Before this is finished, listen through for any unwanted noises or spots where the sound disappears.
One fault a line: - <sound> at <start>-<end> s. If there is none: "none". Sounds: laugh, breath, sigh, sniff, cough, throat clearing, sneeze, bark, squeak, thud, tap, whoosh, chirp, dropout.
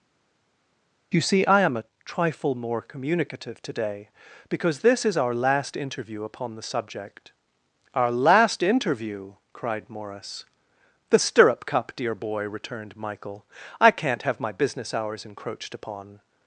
none